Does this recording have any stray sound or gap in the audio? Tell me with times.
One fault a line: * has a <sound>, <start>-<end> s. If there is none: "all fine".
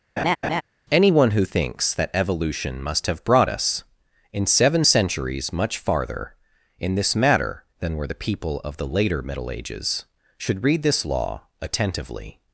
* has a laugh, 0.2-0.6 s